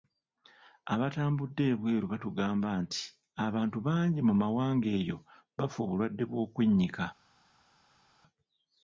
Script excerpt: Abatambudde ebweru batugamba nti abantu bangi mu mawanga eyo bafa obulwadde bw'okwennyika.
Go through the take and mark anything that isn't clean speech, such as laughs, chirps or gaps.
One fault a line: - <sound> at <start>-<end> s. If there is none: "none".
none